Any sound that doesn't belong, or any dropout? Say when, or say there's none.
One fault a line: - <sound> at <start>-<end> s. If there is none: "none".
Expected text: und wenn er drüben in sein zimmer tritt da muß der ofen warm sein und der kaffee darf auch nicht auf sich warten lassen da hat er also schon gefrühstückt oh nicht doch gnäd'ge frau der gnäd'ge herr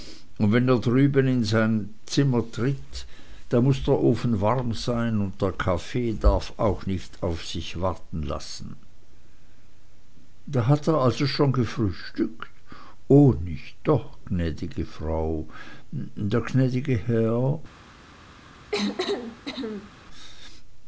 - cough at 18.7-19.9 s